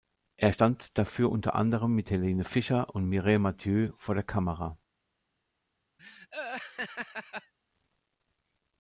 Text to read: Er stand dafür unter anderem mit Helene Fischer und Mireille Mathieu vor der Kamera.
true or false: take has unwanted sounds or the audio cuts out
true